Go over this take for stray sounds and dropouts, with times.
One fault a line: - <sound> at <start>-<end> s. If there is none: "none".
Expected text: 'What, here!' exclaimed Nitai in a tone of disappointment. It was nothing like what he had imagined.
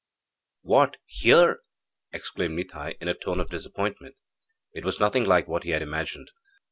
none